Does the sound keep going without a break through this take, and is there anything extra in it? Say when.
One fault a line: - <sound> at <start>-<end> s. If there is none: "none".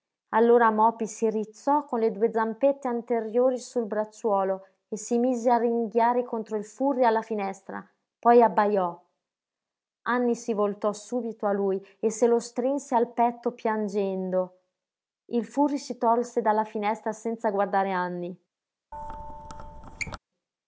- squeak at 18.9-20.2 s